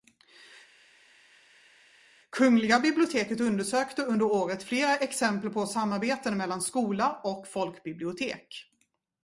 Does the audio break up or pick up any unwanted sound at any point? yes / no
no